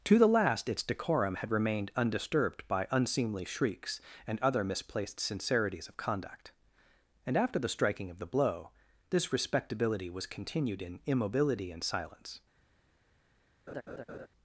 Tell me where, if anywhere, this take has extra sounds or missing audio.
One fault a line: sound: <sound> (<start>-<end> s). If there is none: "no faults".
sound: laugh (13.7-14.3 s)